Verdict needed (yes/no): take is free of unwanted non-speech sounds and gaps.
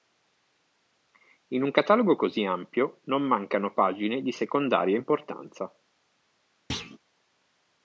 no